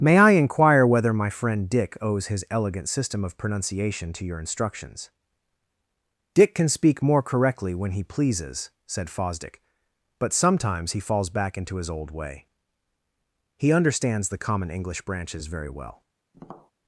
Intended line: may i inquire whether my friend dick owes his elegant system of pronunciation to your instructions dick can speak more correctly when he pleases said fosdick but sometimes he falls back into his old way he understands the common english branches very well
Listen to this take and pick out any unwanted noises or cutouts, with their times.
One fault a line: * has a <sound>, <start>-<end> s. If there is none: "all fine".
* has a tap, 16.3-16.7 s